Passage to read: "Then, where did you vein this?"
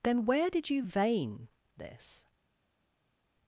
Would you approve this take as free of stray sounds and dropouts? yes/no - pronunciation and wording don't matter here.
yes